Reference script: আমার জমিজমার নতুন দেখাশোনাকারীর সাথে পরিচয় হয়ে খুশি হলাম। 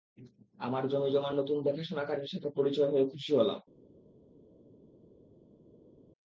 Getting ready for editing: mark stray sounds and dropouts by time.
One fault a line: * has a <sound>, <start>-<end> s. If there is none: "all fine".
all fine